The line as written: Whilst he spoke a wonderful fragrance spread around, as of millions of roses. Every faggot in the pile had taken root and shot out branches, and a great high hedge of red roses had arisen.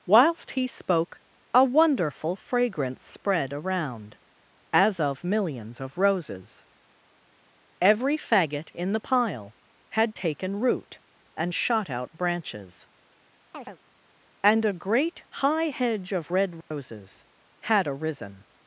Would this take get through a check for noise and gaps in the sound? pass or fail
fail